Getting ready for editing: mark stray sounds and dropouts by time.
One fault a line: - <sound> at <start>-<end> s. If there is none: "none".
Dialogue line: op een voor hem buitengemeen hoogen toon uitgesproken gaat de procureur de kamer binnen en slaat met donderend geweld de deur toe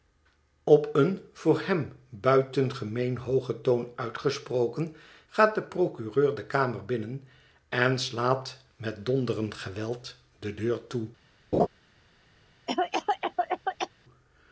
- laugh at 11.5-11.7 s
- cough at 12.7-13.9 s